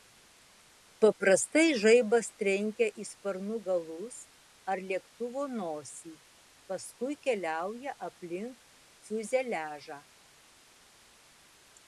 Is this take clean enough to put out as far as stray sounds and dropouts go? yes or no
yes